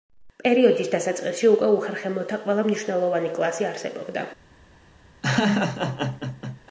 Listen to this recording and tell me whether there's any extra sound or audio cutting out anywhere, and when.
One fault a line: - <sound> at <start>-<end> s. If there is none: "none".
- laugh at 5.2-6.6 s